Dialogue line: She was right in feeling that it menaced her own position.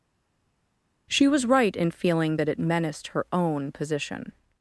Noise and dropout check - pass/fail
pass